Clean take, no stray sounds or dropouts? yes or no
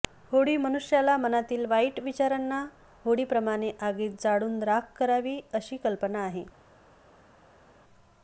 yes